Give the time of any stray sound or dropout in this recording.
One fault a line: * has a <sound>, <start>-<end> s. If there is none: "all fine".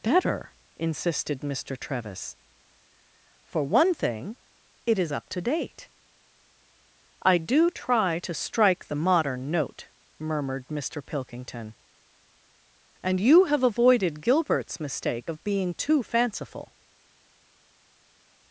all fine